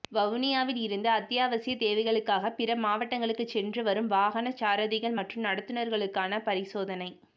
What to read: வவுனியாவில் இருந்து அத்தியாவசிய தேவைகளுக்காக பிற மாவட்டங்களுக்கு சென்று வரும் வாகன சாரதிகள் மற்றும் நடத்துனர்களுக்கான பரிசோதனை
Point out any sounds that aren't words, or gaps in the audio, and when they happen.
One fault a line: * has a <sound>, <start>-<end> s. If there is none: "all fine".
all fine